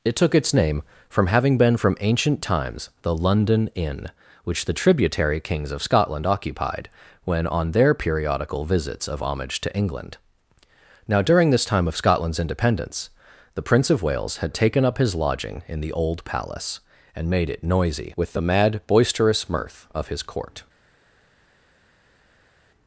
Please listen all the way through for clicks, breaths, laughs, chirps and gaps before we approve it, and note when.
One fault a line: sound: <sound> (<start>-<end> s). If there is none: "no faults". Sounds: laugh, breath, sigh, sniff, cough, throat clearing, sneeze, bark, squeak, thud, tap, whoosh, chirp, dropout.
no faults